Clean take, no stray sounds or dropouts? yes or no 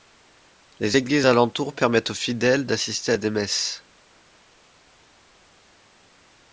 yes